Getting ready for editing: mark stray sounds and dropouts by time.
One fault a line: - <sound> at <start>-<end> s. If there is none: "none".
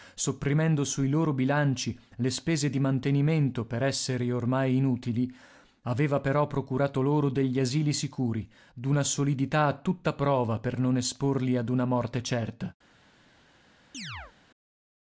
- chirp at 13.9-14.3 s